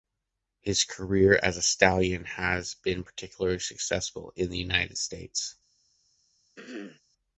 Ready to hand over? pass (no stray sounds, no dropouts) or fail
fail